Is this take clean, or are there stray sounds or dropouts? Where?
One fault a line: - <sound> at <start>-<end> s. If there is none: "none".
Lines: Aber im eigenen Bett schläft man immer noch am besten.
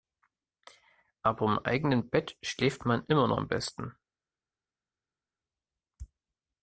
none